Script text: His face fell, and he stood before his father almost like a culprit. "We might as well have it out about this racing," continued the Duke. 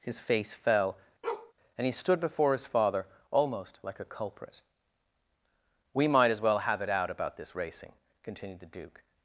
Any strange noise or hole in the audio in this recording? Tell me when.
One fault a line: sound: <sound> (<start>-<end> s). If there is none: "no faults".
sound: bark (1.2-1.5 s)